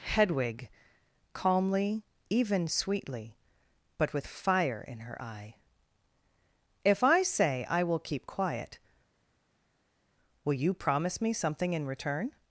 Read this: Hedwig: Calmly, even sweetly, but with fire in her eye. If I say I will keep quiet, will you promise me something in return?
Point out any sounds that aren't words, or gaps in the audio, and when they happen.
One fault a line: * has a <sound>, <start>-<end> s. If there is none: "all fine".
all fine